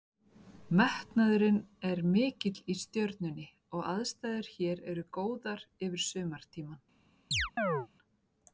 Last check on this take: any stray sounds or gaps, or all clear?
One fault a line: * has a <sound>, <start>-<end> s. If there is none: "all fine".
* has a chirp, 7.3-7.9 s